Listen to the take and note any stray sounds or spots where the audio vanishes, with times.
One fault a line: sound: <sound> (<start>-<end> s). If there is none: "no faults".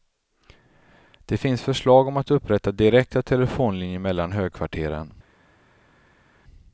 no faults